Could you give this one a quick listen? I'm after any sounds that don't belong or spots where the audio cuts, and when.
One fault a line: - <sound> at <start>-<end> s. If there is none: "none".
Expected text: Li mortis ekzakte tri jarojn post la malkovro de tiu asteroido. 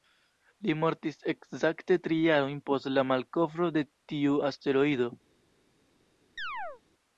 - chirp at 6.4-6.8 s